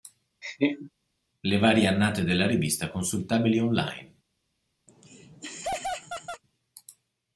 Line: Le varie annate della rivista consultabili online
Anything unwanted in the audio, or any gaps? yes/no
yes